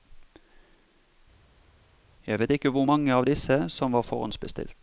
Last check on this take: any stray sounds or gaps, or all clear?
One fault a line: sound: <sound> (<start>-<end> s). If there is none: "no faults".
no faults